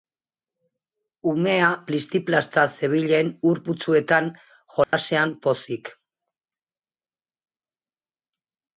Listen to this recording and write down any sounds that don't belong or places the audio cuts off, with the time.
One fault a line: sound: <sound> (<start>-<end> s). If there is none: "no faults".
sound: dropout (4.8-4.9 s)